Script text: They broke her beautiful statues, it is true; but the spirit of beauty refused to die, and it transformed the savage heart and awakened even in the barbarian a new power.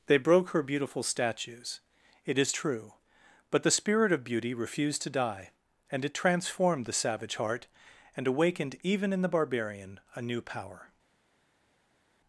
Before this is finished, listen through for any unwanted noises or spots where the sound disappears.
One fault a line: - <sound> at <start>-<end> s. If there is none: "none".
none